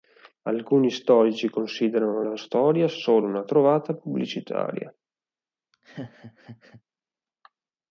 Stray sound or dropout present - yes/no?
yes